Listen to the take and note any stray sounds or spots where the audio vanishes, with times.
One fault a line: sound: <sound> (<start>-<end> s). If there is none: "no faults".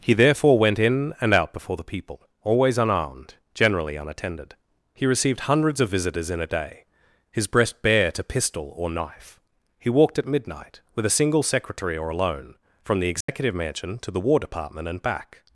sound: dropout (13.2-13.3 s)